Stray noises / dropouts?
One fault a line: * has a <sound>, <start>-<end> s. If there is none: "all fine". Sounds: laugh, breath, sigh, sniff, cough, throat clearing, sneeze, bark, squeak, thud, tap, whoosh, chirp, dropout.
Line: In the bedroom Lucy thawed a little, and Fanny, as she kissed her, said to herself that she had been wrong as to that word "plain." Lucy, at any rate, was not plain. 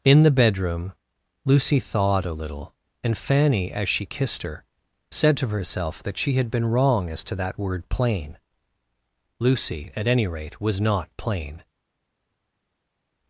all fine